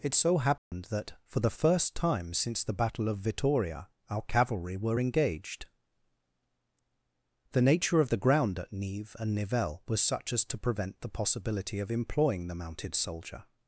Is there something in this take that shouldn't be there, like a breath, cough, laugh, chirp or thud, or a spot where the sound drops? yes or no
yes